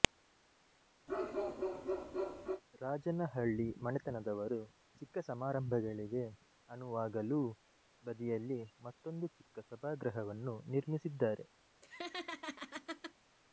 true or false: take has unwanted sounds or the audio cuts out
true